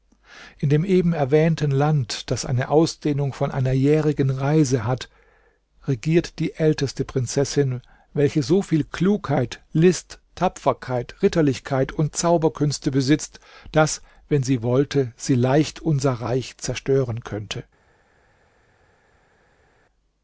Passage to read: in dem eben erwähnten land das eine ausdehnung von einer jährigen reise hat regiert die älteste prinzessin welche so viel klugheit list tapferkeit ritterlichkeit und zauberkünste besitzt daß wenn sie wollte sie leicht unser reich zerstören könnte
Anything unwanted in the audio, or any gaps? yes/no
no